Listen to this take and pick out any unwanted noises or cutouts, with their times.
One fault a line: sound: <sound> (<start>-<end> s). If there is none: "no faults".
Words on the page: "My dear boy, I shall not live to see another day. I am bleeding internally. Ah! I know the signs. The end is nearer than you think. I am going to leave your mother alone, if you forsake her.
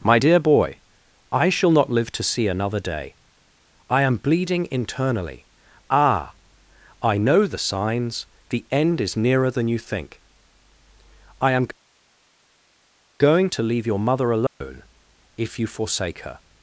sound: dropout (14.5-14.6 s)